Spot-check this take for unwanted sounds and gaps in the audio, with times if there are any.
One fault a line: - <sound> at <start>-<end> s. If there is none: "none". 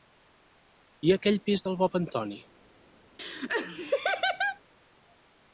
- laugh at 3.2-4.6 s